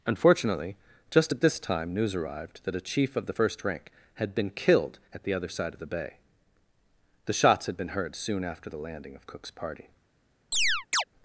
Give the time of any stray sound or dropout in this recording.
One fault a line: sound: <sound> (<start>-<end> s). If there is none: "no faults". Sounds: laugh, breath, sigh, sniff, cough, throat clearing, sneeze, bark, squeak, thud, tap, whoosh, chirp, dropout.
sound: chirp (10.5-11.0 s)